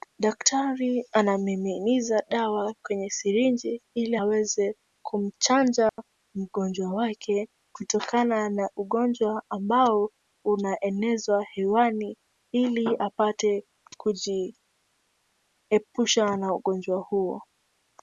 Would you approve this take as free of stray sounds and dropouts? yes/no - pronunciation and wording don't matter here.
no